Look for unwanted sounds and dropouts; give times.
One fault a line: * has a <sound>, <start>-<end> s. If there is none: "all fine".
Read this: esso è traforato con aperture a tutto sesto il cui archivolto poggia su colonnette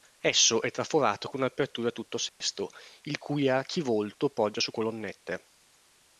* has a dropout, 2.3-2.4 s